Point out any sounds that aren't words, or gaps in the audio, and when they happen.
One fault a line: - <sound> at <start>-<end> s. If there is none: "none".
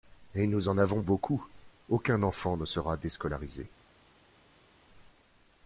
none